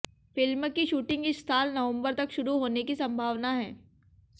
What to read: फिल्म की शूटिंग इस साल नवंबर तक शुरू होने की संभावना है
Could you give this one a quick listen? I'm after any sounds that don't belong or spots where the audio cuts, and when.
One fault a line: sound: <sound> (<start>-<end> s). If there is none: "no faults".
no faults